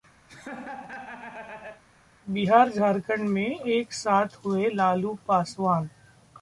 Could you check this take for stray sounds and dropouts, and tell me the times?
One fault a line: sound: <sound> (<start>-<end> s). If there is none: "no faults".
sound: laugh (0.3-1.8 s)